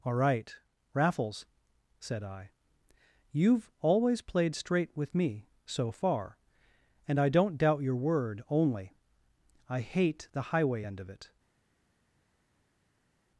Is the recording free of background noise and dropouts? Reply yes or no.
yes